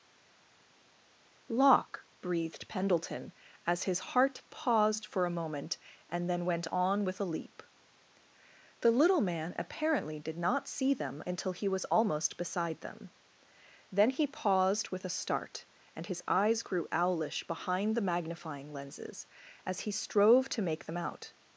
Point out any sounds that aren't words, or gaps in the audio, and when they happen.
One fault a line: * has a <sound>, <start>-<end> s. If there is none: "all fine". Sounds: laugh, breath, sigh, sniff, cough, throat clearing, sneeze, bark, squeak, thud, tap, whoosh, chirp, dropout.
all fine